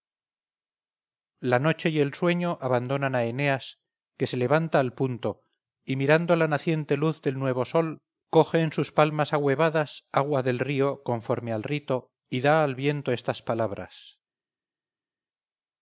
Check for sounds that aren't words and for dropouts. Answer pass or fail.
pass